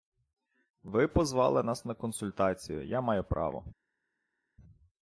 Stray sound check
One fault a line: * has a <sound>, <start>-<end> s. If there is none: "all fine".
all fine